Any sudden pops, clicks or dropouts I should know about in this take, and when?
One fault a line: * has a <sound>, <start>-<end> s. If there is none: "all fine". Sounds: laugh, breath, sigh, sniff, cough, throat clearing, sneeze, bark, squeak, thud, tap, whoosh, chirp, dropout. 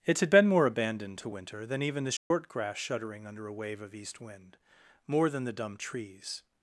* has a dropout, 2.2-2.3 s